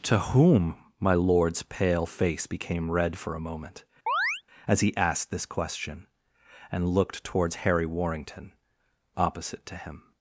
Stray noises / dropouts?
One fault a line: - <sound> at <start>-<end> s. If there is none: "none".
- chirp at 4.1-4.4 s